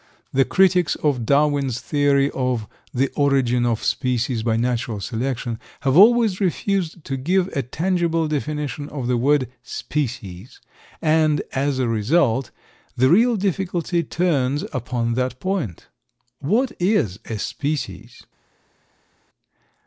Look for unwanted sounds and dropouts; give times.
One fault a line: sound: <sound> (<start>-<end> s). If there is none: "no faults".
no faults